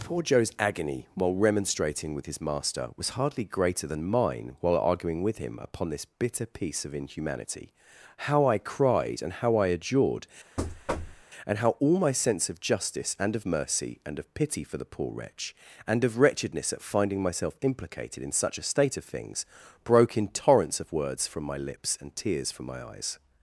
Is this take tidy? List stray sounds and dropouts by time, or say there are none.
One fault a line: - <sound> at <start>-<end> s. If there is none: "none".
- thud at 10.6-11.2 s